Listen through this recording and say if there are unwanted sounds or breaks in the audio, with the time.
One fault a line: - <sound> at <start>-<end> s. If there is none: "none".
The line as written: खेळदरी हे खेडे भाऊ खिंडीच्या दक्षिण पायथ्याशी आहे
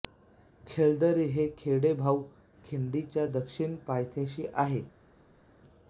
none